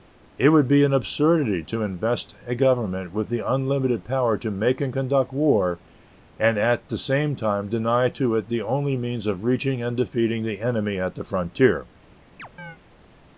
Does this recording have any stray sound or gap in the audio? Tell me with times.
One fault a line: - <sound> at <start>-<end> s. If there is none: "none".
- chirp at 12.4-12.8 s